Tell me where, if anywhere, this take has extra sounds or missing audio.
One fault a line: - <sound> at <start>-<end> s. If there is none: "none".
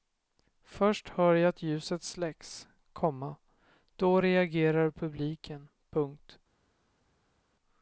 none